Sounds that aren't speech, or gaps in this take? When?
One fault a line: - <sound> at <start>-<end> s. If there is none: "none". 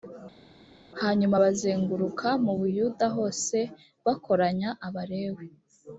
none